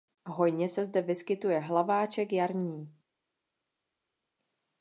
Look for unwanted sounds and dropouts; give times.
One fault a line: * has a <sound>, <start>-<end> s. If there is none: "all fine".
all fine